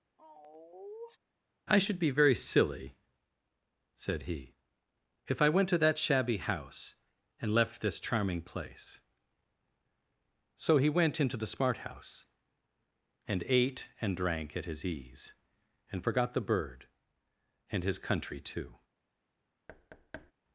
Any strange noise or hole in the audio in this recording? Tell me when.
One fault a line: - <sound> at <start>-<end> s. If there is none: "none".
- sigh at 0.2-1.2 s
- thud at 19.7-20.3 s